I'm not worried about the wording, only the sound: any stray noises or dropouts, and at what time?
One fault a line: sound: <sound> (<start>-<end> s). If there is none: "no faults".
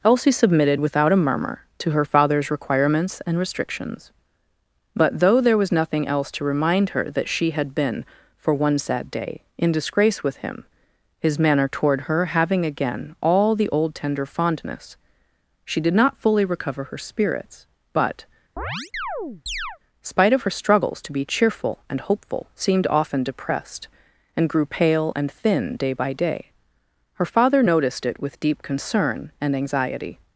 sound: chirp (18.6-19.8 s)